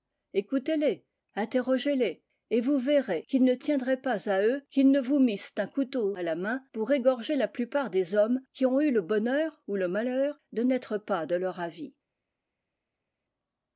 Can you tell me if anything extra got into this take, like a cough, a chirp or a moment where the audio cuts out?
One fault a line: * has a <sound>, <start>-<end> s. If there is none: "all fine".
all fine